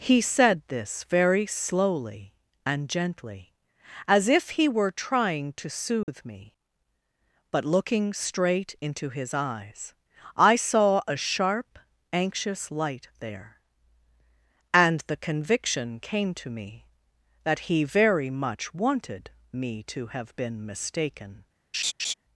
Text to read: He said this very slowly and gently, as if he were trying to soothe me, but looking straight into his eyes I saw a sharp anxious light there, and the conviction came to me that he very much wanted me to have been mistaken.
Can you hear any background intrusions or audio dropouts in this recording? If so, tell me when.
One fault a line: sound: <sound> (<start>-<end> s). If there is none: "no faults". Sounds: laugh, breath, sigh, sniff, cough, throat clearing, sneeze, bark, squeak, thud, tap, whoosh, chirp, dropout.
sound: dropout (6.0-6.1 s)
sound: laugh (21.7-22.1 s)